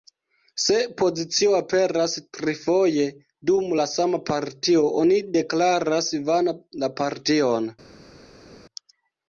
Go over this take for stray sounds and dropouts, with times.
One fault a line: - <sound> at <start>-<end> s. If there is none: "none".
none